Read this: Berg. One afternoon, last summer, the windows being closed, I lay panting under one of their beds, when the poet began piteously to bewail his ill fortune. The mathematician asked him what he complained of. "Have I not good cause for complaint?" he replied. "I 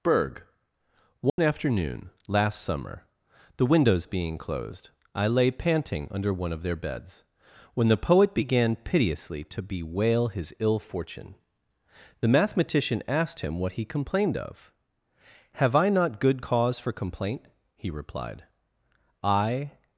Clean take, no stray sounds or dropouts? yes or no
no